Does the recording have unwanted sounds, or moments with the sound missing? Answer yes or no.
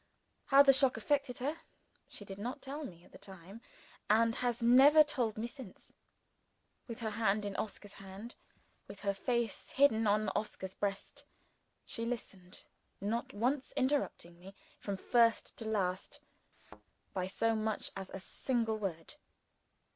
yes